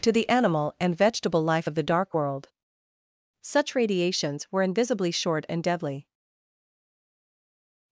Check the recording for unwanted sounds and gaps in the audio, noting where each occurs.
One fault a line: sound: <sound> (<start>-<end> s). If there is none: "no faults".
no faults